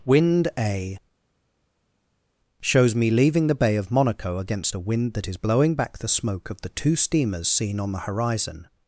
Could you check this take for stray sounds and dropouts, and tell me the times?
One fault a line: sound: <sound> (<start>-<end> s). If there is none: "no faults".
no faults